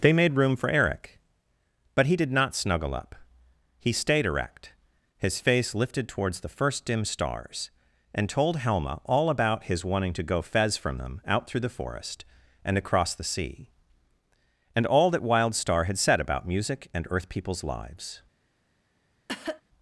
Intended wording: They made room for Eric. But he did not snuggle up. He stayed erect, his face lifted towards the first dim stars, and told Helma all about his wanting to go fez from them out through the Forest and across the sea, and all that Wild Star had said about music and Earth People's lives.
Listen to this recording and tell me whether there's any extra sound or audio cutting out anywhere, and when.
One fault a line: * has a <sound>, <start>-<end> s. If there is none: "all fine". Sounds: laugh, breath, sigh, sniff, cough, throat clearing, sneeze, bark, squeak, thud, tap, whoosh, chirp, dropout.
* has a cough, 19.3-19.6 s